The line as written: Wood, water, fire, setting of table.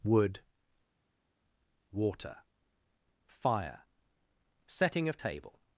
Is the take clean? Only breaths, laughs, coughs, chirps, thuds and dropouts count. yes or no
yes